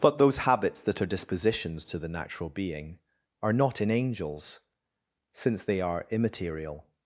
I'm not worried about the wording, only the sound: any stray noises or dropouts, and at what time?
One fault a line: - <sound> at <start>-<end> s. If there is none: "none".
none